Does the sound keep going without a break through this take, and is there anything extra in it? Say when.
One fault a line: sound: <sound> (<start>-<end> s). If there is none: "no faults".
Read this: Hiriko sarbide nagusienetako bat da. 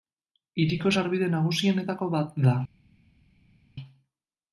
no faults